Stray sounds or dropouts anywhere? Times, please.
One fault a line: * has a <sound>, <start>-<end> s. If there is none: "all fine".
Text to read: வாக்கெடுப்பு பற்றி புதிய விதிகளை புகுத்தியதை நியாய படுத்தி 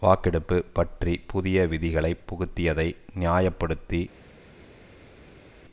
all fine